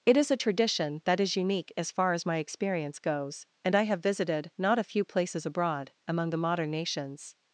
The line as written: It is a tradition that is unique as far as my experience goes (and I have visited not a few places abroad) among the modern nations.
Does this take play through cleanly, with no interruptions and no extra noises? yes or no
yes